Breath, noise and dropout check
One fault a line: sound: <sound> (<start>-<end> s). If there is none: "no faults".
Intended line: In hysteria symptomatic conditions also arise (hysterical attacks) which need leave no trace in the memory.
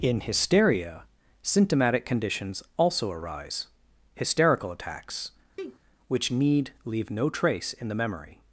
sound: sneeze (5.6-5.8 s)